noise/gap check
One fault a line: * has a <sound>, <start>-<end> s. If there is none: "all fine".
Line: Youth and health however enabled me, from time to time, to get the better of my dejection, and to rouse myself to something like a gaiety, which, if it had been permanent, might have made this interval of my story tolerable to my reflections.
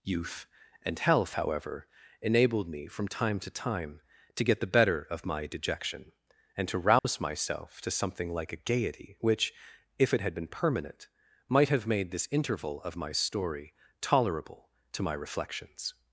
* has a dropout, 7.0-7.0 s